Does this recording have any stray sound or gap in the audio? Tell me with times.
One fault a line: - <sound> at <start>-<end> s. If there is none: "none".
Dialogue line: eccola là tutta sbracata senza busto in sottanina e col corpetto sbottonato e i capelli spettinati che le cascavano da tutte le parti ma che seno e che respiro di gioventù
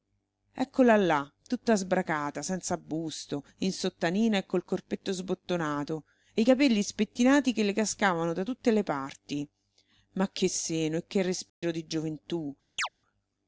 - dropout at 11.5-11.6 s
- chirp at 12.8-12.9 s